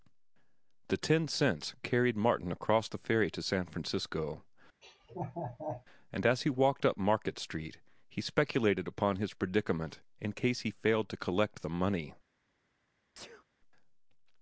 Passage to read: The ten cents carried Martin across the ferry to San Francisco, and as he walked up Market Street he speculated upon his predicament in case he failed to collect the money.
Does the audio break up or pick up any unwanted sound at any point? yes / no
yes